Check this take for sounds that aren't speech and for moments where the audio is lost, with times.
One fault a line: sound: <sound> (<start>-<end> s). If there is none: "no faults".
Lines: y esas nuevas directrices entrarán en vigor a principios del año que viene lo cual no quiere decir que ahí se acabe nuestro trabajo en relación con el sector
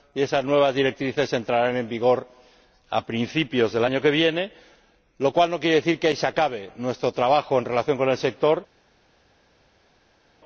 no faults